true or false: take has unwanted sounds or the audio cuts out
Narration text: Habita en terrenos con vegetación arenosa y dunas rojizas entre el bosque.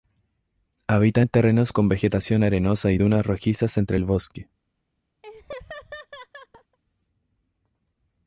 true